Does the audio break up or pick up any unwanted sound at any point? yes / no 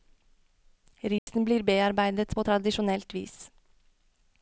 yes